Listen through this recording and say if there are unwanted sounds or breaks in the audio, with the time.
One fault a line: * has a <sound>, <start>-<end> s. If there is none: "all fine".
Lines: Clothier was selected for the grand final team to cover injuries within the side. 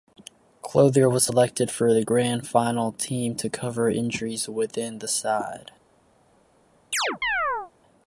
* has a chirp, 6.9-7.7 s